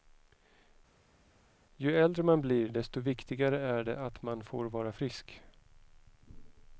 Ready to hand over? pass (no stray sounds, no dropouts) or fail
pass